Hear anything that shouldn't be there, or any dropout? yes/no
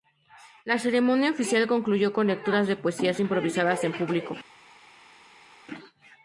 no